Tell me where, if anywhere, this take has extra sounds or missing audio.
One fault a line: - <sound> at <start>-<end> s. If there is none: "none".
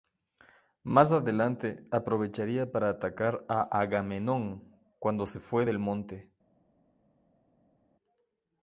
none